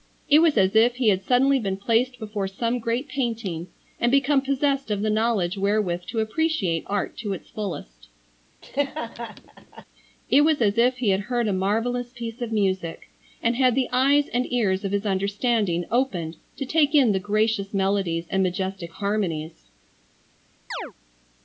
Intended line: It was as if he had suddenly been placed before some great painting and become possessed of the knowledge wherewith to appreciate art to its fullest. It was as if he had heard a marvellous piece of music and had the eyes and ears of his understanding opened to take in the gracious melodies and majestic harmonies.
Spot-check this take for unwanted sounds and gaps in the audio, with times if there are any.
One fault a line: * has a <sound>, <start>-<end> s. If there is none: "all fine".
* has a laugh, 8.6-9.8 s
* has a chirp, 20.7-20.9 s